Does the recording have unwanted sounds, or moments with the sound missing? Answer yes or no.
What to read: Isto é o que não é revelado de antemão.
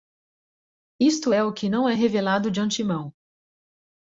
no